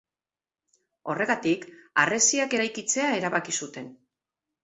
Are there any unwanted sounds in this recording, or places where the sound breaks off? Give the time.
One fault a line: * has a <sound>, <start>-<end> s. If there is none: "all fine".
all fine